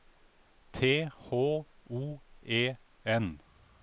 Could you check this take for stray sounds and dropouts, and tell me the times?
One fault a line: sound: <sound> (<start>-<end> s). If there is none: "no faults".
no faults